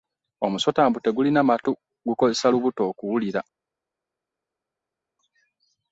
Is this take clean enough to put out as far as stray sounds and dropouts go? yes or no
yes